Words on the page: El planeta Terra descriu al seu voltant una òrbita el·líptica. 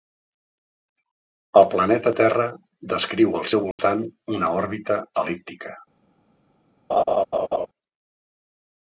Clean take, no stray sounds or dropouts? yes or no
no